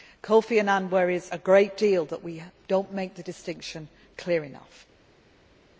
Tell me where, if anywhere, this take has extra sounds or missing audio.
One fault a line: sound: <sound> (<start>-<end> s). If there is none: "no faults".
no faults